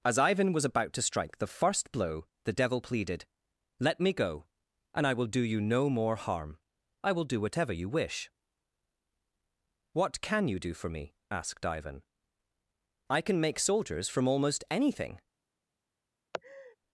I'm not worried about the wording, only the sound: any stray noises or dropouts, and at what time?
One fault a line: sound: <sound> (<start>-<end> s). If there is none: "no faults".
sound: laugh (16.3-16.8 s)